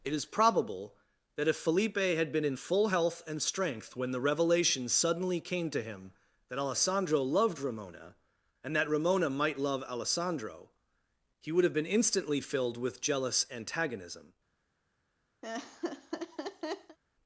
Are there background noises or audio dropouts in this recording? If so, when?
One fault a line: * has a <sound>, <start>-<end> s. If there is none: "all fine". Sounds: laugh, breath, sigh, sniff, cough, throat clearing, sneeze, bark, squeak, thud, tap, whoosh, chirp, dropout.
* has a laugh, 15.4-17.0 s